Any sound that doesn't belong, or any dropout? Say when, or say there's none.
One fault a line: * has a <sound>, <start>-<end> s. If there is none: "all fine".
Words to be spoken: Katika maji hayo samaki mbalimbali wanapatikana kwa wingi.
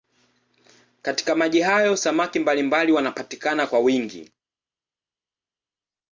all fine